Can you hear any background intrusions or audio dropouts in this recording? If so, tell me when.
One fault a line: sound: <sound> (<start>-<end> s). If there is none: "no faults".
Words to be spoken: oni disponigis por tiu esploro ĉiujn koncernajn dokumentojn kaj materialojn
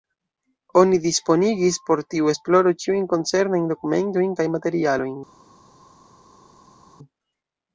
no faults